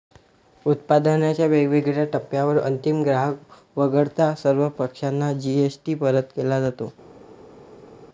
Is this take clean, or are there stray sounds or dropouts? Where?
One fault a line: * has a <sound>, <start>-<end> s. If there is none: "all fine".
all fine